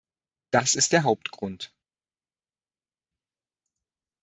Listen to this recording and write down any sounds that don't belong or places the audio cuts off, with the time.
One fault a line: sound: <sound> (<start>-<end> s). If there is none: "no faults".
no faults